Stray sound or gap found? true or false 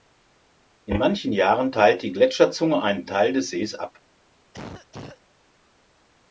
true